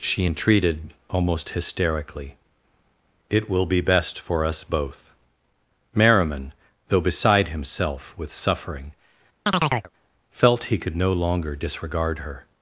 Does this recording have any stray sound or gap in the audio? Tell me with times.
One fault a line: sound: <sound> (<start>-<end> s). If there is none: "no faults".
sound: chirp (9.5-9.9 s)